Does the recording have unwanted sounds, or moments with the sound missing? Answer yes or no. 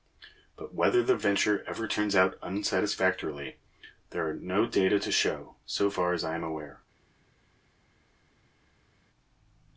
no